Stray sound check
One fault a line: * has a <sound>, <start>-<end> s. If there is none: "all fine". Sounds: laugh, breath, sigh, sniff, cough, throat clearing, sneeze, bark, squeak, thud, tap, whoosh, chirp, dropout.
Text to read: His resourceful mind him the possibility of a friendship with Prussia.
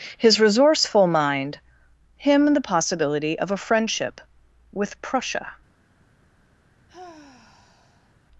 * has a sigh, 6.9-8.1 s